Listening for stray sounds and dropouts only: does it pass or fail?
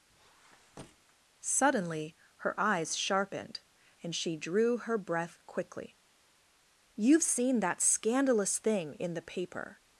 fail